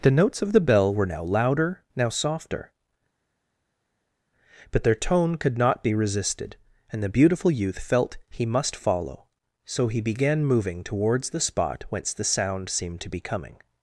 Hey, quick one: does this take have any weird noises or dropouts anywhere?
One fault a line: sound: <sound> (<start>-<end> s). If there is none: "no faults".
no faults